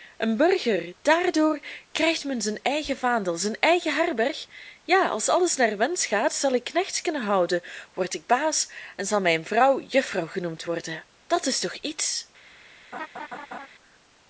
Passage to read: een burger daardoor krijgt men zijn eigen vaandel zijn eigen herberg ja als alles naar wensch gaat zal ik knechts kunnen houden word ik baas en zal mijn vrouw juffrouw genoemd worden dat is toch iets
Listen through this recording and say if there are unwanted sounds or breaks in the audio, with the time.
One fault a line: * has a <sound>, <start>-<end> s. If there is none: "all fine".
* has a laugh, 12.9-13.7 s